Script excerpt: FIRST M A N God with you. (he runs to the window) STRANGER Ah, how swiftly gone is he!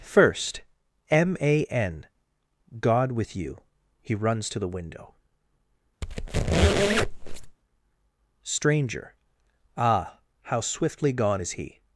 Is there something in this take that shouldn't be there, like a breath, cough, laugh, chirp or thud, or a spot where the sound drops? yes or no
yes